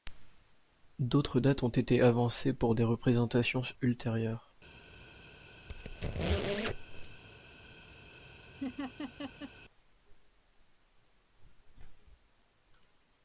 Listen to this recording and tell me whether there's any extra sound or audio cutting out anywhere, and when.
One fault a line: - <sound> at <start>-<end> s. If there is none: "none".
- squeak at 5.7-7.2 s
- laugh at 8.6-9.5 s